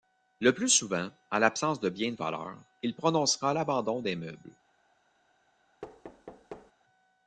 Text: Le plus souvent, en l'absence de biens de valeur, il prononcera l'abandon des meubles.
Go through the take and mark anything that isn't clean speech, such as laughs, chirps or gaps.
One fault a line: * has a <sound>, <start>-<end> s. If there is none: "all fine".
* has a thud, 5.8-6.7 s